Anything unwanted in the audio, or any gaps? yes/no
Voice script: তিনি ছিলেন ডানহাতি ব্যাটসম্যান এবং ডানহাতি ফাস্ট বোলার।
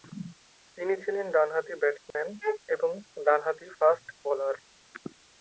yes